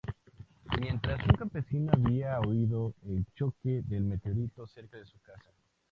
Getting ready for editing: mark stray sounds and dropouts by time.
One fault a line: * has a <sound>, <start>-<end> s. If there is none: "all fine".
all fine